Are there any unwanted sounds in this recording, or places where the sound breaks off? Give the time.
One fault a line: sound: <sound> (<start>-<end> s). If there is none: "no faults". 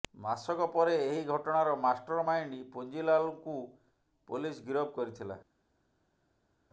no faults